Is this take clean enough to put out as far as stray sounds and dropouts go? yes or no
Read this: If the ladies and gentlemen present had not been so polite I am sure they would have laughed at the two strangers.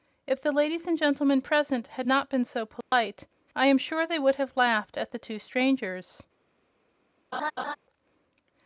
no